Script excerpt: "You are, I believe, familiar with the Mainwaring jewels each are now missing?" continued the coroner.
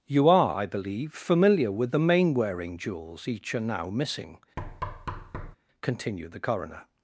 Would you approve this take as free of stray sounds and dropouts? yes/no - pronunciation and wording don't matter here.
no